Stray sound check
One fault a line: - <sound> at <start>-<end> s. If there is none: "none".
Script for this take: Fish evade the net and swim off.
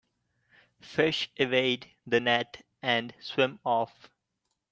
none